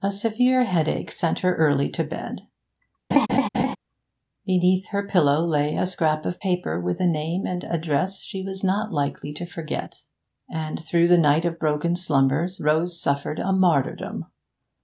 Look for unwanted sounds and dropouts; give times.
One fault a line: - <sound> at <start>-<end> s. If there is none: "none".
- laugh at 3.1-3.8 s